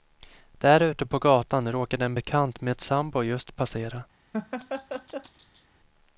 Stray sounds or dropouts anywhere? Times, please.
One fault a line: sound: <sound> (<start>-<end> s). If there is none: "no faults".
sound: laugh (4.3-5.7 s)